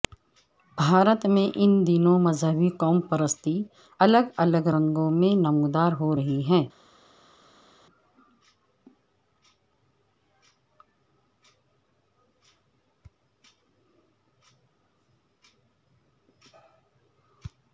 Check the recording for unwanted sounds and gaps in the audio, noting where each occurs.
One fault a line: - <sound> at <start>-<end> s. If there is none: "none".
none